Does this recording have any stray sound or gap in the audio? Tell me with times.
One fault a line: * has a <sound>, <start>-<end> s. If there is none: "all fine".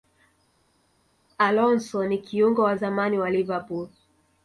all fine